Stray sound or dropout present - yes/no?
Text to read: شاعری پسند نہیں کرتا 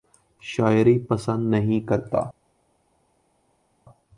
no